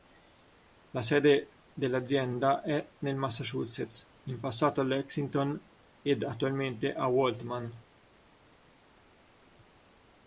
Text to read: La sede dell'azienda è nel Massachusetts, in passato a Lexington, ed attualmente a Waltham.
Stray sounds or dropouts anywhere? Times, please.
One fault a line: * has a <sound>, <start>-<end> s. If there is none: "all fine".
all fine